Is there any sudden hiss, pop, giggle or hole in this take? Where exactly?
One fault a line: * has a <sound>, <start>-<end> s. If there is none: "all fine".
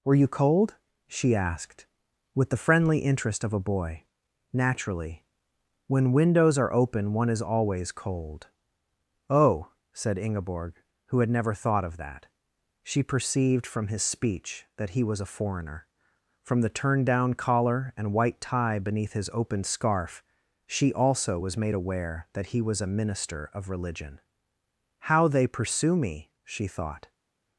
all fine